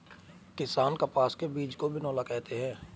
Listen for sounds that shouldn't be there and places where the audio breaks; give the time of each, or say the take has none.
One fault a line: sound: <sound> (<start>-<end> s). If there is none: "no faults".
no faults